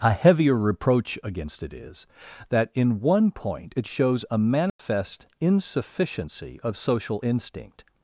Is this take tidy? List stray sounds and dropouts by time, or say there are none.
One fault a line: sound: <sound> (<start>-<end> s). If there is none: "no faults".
sound: dropout (4.7-4.8 s)